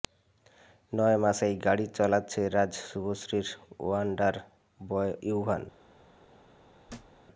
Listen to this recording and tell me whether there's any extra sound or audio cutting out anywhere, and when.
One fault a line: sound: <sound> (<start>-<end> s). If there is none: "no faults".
sound: thud (6.9-7.2 s)